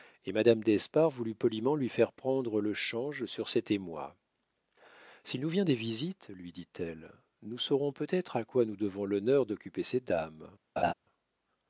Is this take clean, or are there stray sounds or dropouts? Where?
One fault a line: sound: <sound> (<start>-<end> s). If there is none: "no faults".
sound: laugh (10.8-10.9 s)